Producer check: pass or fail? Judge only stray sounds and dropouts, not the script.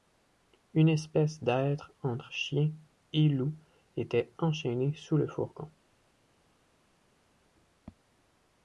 pass